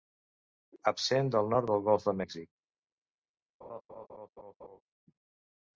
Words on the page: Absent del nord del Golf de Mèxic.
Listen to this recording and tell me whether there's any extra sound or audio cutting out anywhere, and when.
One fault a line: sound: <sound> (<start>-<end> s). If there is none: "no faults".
sound: laugh (3.6-4.8 s)